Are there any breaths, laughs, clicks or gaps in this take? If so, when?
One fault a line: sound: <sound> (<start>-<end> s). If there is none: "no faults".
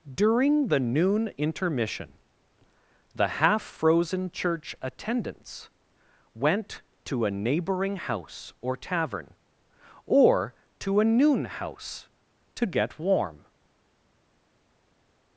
no faults